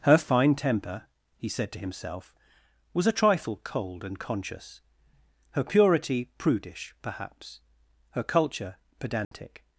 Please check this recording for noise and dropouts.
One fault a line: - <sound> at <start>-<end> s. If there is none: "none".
- dropout at 9.2-9.3 s